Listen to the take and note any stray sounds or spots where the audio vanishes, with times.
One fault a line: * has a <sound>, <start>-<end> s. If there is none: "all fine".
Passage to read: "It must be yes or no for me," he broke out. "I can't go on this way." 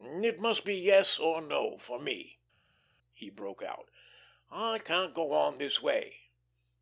all fine